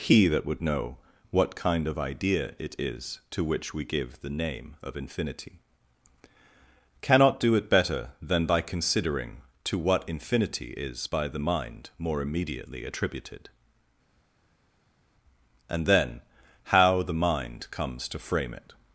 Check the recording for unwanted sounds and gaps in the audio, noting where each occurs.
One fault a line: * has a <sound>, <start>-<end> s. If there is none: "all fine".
all fine